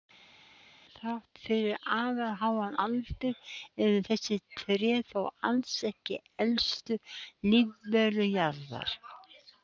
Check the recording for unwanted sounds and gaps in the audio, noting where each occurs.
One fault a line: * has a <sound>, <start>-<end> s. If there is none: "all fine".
all fine